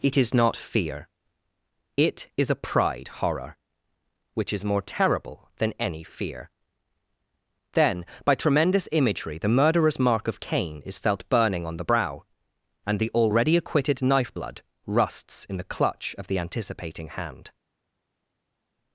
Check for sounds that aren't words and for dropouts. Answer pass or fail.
pass